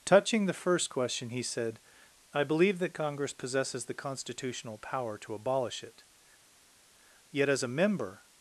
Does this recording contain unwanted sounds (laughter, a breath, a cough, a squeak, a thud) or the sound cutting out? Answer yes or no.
no